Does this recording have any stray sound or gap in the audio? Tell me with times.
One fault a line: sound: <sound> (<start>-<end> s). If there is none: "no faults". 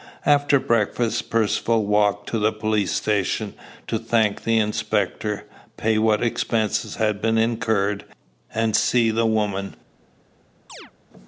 sound: chirp (10.7-10.9 s)